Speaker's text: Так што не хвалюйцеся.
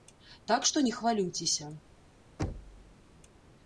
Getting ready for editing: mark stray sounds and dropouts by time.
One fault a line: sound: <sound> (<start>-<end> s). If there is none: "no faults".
sound: thud (2.4-3.0 s)